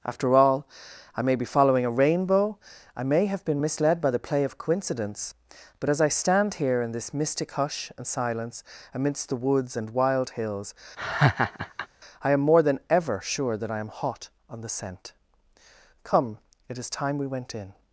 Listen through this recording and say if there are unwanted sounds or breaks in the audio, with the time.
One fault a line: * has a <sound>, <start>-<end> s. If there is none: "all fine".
* has a laugh, 11.0-11.9 s